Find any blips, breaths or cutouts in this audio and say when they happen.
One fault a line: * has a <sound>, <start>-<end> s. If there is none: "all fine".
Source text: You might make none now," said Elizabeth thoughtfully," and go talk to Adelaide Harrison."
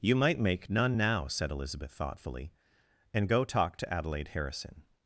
all fine